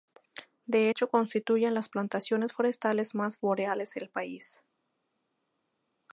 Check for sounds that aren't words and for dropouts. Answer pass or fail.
pass